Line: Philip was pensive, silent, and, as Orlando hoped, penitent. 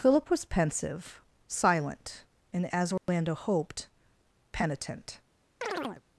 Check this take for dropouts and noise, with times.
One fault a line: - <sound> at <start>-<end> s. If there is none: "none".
- dropout at 3.0-3.1 s
- chirp at 5.6-6.0 s